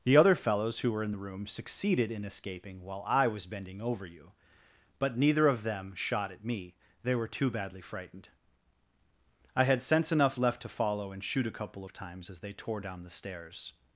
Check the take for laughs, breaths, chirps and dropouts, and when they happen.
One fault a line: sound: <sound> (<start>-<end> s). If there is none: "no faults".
no faults